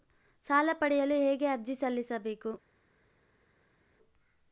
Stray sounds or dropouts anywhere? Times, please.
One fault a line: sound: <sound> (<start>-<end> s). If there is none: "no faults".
no faults